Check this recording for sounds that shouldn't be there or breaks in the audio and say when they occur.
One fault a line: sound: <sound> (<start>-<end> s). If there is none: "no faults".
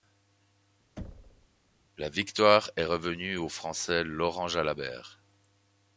sound: thud (1.0-1.5 s)